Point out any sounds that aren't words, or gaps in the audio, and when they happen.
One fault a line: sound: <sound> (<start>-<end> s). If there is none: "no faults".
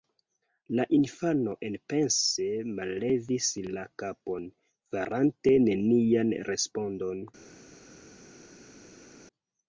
no faults